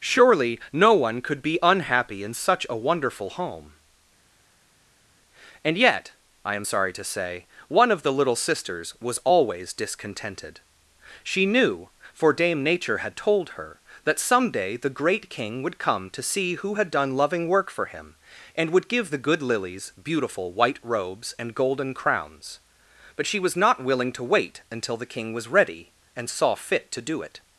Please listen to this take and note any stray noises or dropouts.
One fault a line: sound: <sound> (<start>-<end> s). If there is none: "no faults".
no faults